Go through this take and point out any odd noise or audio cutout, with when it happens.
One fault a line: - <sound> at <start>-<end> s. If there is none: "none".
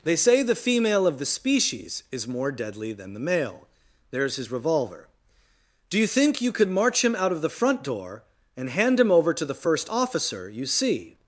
none